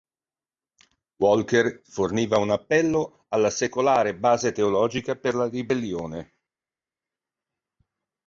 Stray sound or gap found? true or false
false